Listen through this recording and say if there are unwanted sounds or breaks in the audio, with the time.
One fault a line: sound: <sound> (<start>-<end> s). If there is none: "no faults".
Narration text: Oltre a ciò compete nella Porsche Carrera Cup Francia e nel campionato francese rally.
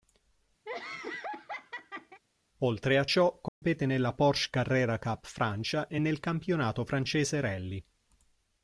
sound: laugh (0.7-2.2 s)
sound: dropout (3.5-3.6 s)